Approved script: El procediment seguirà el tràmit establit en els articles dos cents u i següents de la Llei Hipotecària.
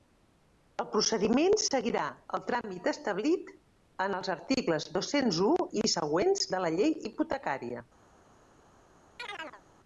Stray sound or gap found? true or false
true